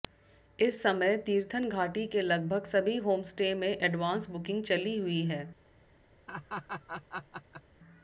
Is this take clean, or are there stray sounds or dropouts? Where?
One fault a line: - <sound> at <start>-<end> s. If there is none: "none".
- laugh at 6.3-7.6 s